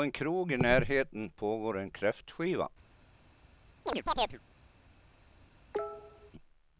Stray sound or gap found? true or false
true